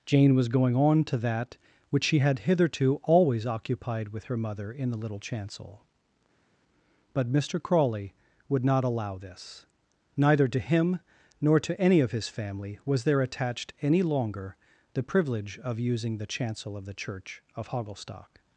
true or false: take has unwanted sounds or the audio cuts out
false